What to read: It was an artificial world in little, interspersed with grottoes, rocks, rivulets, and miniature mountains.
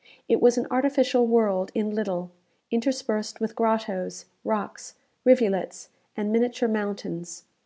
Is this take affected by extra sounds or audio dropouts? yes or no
no